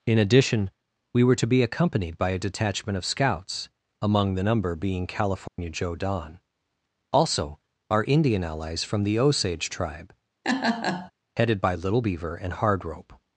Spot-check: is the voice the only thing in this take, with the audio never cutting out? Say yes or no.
no